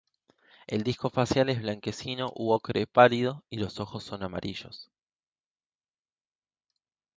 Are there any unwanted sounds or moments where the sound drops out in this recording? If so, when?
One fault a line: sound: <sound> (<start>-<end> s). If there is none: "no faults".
no faults